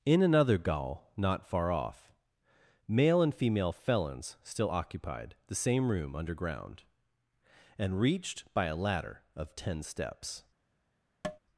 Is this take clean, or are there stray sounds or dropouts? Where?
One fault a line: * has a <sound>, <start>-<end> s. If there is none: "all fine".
* has a tap, 11.2-11.4 s